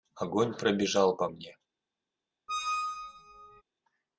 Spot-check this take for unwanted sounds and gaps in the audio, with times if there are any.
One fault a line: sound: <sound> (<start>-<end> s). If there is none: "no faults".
sound: squeak (2.5-3.6 s)